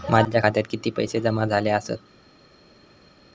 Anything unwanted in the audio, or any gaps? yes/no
no